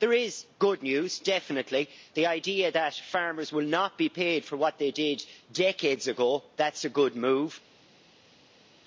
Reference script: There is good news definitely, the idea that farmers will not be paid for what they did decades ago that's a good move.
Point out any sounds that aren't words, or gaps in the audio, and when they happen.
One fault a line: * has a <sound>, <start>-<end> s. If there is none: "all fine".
all fine